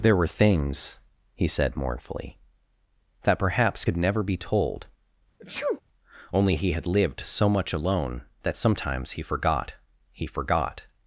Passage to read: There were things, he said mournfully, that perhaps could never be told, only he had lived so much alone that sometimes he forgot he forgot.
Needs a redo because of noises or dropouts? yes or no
yes